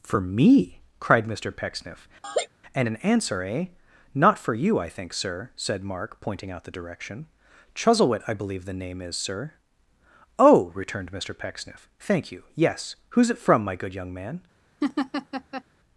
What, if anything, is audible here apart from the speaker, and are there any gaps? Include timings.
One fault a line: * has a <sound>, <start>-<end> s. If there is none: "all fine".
* has a laugh, 2.2-2.5 s
* has a laugh, 14.8-15.6 s